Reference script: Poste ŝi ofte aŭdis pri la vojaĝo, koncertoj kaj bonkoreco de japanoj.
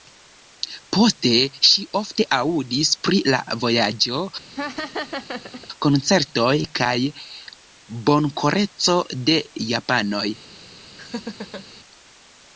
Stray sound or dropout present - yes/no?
yes